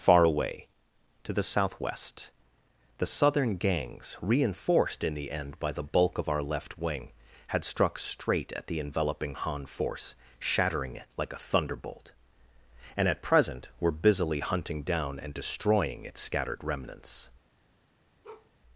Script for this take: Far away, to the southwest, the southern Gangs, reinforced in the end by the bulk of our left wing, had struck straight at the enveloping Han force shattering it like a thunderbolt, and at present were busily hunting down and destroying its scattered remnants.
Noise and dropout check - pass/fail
fail